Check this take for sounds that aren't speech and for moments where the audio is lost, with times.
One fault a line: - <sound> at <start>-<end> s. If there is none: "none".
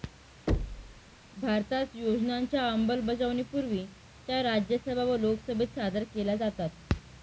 - thud at 0.5-1.0 s